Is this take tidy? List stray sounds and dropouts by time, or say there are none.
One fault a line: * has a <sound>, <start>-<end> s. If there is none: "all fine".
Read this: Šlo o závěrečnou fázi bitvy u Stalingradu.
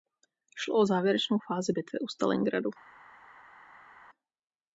all fine